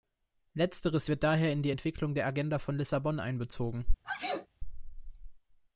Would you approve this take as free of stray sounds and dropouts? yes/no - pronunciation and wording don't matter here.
no